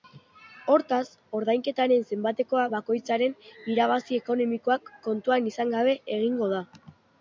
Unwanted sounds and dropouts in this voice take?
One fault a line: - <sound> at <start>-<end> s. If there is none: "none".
none